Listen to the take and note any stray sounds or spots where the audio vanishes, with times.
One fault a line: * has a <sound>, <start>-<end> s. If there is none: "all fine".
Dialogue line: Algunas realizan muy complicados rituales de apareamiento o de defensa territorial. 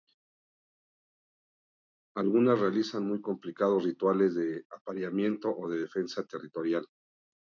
all fine